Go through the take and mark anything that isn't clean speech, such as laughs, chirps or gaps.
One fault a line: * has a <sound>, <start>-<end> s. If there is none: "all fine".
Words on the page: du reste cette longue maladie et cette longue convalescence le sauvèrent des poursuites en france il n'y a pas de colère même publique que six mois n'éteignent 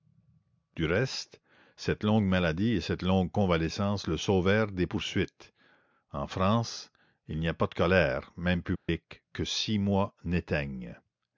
* has a dropout, 8.8-8.9 s